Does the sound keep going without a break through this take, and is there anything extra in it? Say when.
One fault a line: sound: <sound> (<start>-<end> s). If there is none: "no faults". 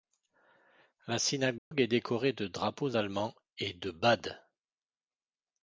sound: dropout (1.6-1.7 s)